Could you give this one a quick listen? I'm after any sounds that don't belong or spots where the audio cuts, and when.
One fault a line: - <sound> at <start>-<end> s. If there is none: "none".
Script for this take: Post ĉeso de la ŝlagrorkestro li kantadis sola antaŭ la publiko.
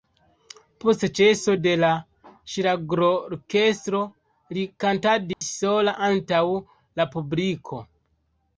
- dropout at 5.3-5.4 s